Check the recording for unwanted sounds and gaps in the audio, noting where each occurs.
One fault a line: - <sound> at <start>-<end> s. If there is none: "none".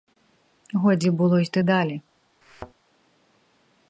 - thud at 2.4-2.7 s